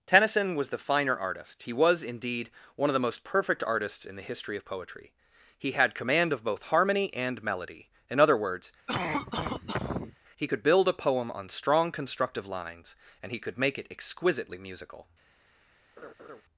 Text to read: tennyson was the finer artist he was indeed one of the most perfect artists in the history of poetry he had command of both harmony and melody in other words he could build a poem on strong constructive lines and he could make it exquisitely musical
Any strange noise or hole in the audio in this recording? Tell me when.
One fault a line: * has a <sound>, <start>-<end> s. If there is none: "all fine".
* has a cough, 8.9-10.2 s
* has a laugh, 16.0-16.4 s